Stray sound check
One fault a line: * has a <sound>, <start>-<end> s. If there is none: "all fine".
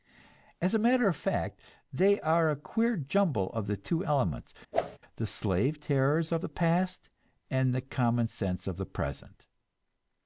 * has a whoosh, 4.7-5.0 s